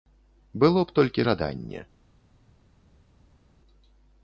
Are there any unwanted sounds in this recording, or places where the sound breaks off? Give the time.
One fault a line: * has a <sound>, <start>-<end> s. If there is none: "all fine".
all fine